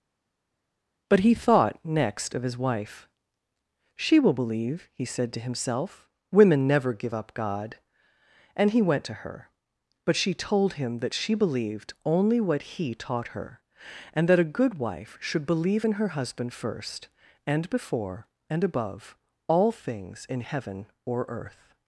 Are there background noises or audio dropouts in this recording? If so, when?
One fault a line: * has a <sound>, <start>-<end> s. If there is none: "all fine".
all fine